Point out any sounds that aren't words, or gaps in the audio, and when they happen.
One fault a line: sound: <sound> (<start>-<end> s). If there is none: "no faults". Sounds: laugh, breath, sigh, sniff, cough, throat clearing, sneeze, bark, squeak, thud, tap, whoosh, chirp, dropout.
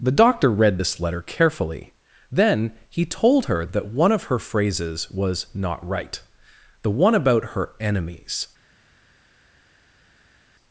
no faults